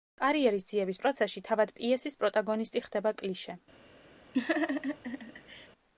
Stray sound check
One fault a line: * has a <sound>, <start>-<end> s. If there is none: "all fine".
* has a laugh, 4.3-5.7 s